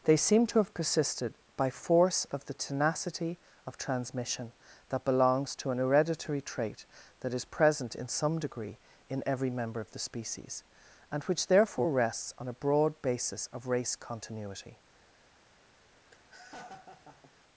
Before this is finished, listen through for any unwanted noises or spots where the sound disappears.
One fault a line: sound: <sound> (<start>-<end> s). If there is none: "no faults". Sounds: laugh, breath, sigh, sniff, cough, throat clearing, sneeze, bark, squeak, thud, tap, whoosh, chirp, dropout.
sound: laugh (16.1-17.3 s)